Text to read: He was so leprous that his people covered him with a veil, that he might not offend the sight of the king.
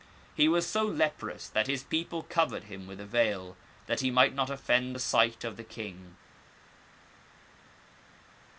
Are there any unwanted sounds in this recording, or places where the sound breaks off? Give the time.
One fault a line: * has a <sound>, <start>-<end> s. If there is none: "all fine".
all fine